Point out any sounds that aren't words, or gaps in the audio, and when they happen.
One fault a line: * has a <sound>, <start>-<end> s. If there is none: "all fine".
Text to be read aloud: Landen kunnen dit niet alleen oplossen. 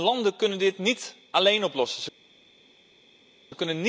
all fine